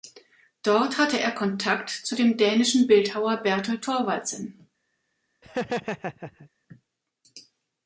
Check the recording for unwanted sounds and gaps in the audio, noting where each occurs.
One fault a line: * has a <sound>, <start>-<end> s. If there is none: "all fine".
* has a laugh, 5.4-6.5 s